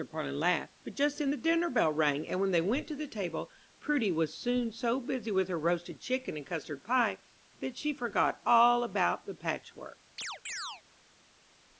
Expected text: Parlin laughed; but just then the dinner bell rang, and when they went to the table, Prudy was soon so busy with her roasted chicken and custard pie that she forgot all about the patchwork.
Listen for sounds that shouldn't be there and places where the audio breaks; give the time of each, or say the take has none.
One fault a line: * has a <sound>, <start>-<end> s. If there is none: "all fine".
* has a chirp, 10.2-10.8 s